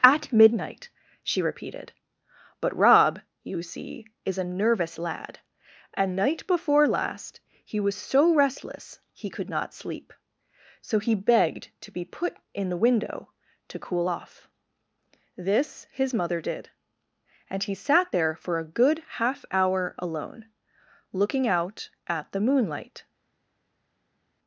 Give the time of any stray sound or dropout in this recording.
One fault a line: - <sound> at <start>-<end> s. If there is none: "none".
none